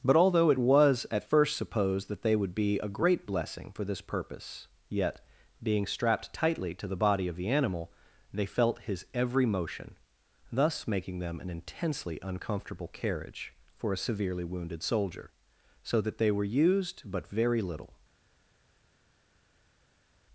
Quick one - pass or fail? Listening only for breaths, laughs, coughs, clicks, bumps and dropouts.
pass